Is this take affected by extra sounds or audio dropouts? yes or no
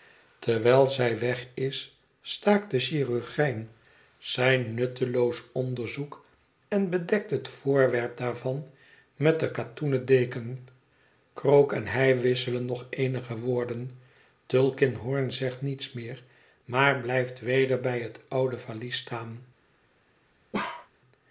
yes